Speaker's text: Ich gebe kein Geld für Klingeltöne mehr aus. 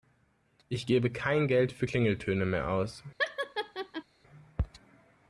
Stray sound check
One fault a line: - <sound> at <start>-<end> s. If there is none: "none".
- laugh at 3.2-4.0 s